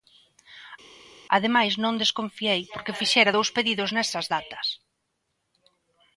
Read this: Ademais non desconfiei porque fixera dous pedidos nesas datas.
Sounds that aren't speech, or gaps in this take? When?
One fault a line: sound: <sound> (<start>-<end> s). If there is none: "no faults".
no faults